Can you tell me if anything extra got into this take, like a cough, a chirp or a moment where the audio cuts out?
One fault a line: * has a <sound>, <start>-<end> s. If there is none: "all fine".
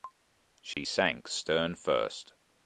* has a dropout, 0.7-0.8 s